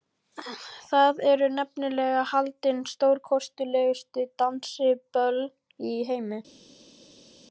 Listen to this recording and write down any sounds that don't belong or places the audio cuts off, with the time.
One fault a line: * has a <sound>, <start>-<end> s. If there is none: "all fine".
all fine